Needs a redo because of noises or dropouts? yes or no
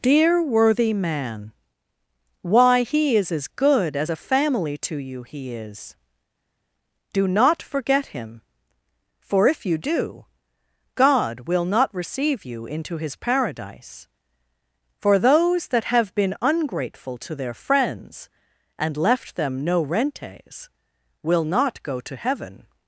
no